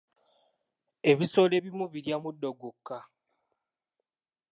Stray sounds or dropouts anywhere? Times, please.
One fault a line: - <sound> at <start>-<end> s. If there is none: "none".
none